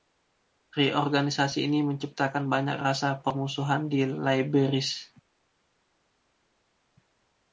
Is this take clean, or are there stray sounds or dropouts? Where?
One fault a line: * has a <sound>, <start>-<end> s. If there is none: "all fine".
all fine